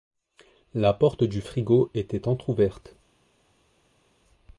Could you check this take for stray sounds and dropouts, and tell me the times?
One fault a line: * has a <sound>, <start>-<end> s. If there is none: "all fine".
all fine